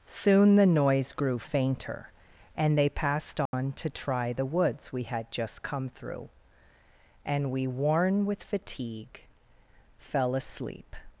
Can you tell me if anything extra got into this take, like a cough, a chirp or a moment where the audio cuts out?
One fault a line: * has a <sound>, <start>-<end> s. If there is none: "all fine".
* has a dropout, 3.5-3.5 s